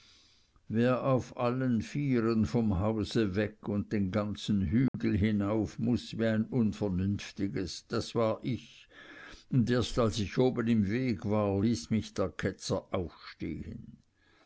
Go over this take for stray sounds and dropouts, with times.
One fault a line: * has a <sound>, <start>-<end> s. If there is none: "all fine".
* has a dropout, 4.9-4.9 s